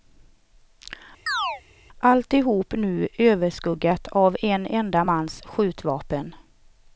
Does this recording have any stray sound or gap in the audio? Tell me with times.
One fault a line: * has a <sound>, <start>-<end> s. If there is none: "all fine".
* has a chirp, 1.3-1.6 s